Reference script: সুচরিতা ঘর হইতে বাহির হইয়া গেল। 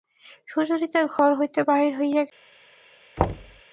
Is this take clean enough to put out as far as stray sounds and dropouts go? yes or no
no